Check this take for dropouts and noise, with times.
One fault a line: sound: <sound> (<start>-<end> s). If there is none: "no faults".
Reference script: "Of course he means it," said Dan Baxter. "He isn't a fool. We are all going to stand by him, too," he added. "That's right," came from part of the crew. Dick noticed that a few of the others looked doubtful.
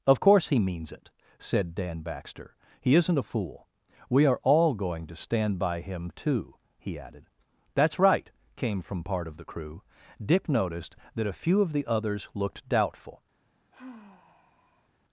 sound: sigh (13.7-14.9 s)